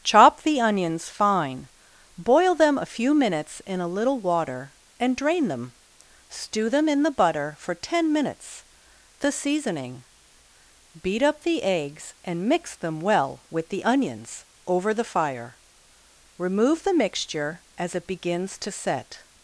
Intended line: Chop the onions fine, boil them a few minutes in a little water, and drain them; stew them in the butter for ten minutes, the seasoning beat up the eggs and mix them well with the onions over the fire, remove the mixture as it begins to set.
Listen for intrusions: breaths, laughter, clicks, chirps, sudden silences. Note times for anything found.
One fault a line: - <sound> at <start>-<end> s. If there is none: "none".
none